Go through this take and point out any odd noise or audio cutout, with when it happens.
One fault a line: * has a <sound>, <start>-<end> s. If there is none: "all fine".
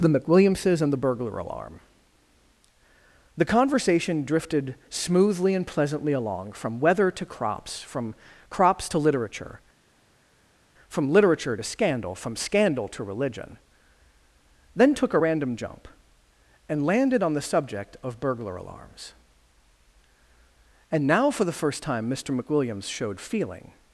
all fine